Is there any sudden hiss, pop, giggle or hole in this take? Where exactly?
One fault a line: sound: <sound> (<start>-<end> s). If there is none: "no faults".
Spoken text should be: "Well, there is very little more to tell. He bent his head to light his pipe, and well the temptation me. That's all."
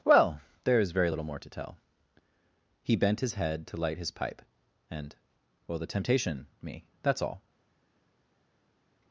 no faults